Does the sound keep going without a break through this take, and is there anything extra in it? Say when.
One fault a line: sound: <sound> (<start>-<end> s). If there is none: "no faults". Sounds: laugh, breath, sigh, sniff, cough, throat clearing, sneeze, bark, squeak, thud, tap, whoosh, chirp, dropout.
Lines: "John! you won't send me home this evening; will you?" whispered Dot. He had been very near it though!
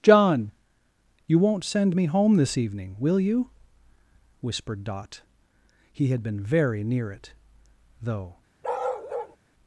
sound: bark (8.6-9.4 s)